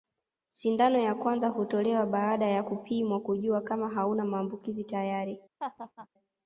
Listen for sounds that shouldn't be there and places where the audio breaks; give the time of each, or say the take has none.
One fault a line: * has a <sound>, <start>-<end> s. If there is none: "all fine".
* has a laugh, 5.6-6.1 s